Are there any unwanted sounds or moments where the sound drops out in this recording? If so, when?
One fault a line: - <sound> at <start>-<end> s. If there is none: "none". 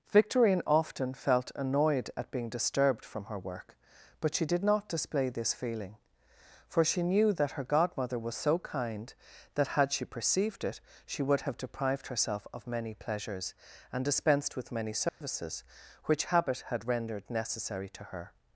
- dropout at 15.1-15.2 s